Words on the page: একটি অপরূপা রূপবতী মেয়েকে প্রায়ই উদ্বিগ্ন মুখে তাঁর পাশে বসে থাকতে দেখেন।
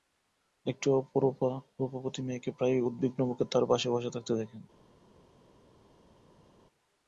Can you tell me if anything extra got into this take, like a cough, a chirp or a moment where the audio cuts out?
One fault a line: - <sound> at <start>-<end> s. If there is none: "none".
none